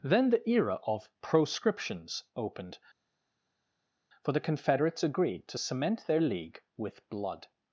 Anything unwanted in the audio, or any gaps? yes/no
no